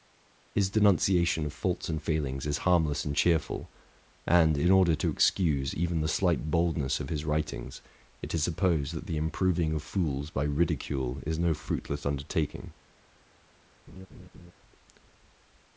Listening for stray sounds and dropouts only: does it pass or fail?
fail